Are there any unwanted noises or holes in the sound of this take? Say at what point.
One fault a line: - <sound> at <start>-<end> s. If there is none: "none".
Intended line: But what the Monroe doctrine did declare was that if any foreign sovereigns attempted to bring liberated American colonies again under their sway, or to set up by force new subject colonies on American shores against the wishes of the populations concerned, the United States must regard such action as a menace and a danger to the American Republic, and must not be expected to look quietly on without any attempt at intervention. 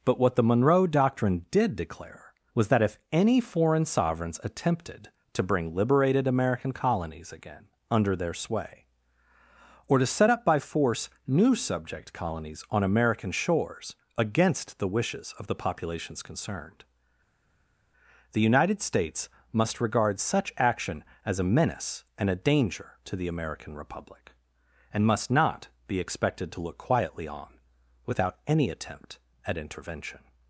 none